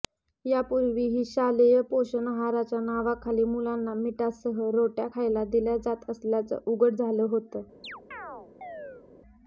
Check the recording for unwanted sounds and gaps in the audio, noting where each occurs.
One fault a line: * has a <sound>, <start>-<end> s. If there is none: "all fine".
* has a chirp, 7.8-9.1 s